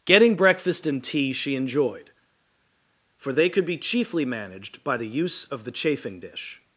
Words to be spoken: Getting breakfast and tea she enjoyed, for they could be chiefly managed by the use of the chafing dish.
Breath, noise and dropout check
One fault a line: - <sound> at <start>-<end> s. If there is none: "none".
none